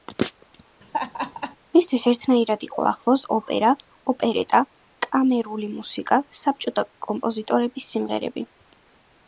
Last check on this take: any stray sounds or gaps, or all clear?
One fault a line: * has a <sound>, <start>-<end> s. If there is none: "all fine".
* has a laugh, 0.8-1.6 s